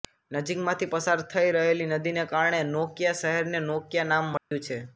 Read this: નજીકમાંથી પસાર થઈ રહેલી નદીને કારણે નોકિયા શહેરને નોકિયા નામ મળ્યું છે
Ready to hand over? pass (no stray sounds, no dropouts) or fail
fail